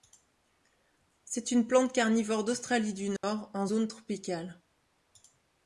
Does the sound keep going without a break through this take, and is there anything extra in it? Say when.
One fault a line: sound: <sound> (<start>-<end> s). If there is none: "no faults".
sound: dropout (3.2-3.2 s)